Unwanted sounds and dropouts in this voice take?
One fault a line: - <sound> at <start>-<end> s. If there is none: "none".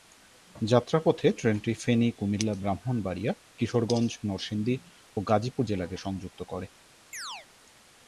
- chirp at 7.1-7.5 s